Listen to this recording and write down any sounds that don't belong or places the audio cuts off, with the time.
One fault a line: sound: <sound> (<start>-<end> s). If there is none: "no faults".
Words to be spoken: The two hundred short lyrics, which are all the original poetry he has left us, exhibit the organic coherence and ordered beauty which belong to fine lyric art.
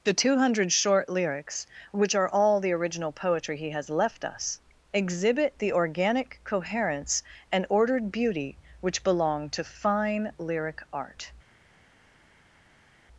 no faults